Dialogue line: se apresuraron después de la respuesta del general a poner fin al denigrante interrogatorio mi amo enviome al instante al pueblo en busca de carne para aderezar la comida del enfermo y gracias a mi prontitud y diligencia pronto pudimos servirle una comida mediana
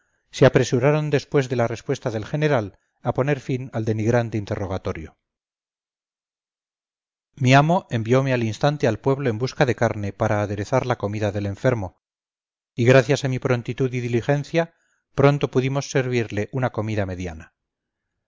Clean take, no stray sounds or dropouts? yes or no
yes